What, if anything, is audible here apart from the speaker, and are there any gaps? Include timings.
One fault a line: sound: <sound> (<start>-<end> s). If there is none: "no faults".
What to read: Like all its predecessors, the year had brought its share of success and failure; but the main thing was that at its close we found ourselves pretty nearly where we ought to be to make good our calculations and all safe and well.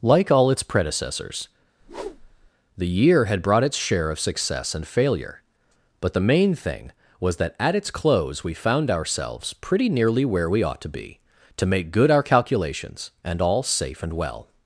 sound: whoosh (1.8-2.5 s)